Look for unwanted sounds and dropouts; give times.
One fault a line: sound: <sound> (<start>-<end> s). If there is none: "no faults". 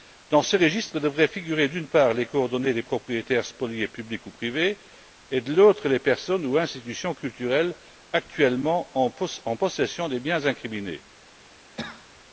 sound: cough (11.8-12.2 s)